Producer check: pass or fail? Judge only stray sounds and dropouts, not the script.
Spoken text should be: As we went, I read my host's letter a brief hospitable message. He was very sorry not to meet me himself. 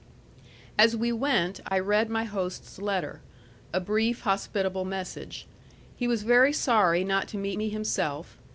fail